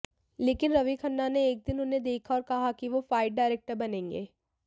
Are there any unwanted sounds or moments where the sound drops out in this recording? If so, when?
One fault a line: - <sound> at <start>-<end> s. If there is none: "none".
none